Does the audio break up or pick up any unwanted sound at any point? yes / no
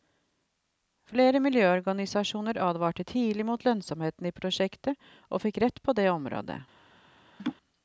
yes